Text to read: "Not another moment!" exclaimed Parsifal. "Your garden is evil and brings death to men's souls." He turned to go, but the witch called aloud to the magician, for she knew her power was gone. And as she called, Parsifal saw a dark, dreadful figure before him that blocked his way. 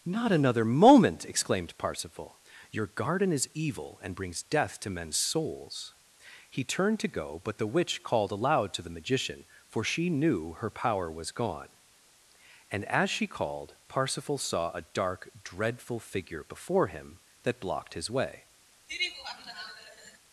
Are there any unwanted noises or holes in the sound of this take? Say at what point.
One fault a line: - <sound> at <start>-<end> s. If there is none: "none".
- laugh at 18.9-20.2 s